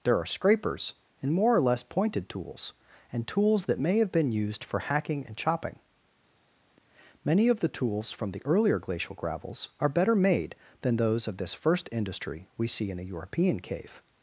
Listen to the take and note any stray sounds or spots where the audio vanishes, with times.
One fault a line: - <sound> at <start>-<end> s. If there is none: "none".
none